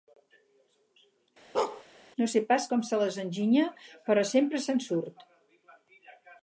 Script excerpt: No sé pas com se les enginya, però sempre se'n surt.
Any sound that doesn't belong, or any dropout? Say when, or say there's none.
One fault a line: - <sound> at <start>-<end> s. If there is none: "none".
- bark at 1.5-1.8 s